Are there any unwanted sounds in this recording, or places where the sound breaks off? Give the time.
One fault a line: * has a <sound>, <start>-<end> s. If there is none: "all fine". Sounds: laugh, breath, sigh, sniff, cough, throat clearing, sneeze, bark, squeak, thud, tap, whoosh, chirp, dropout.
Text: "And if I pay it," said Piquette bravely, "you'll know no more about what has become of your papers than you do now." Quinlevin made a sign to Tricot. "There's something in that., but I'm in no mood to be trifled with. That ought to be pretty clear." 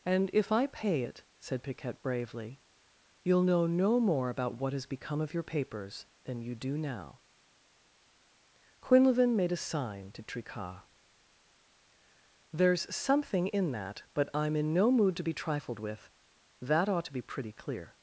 all fine